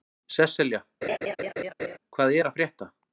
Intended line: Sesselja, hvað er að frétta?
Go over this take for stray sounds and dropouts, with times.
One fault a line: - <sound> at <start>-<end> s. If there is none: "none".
- laugh at 1.0-2.0 s